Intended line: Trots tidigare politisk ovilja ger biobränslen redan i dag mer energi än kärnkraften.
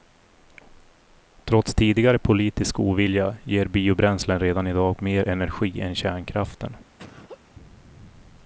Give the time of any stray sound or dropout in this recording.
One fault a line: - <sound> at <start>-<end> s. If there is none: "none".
- laugh at 7.0-7.5 s